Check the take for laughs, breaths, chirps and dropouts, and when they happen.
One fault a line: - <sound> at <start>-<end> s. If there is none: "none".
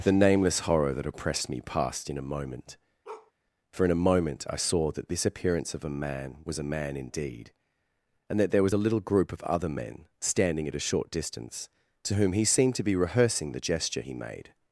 - bark at 3.0-3.3 s